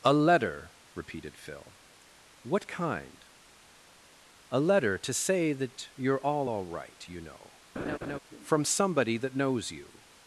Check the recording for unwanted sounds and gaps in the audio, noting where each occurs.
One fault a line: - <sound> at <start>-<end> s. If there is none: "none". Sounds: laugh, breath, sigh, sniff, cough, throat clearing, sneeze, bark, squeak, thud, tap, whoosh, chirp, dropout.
- laugh at 7.8-8.2 s